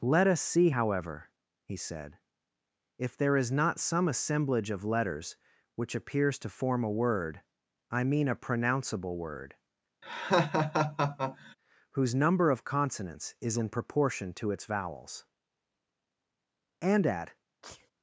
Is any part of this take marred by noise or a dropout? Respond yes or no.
yes